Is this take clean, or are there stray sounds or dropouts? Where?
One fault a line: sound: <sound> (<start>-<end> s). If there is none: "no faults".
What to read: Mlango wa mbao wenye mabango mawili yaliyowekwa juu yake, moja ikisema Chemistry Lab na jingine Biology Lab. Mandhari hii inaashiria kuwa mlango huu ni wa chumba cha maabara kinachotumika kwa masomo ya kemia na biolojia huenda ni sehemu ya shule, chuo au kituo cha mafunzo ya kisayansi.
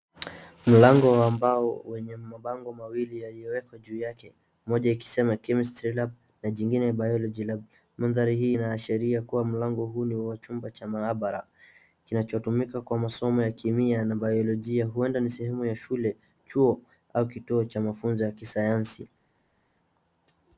no faults